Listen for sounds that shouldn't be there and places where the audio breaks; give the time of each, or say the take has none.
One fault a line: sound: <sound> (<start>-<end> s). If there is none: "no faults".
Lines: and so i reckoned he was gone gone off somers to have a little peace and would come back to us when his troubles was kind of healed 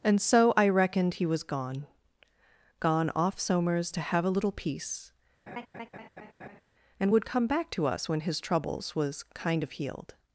sound: laugh (5.5-6.6 s)